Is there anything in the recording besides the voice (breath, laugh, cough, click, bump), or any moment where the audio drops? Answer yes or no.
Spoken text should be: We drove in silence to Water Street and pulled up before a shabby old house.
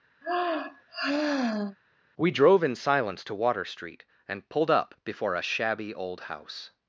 yes